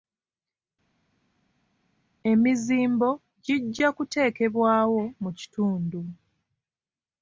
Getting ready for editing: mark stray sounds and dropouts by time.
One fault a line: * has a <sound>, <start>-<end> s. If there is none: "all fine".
all fine